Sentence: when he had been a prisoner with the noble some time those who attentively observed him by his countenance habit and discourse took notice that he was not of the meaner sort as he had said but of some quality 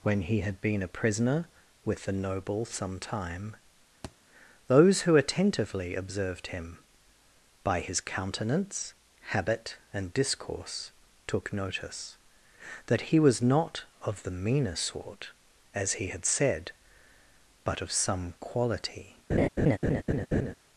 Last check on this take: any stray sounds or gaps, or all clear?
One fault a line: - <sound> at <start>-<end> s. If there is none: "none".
- thud at 4.0-4.2 s
- laugh at 19.3-20.5 s